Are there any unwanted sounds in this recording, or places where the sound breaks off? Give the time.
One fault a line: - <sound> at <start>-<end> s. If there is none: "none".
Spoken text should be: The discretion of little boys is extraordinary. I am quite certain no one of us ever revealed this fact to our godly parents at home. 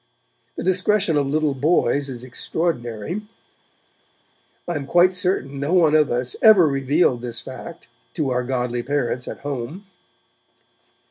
none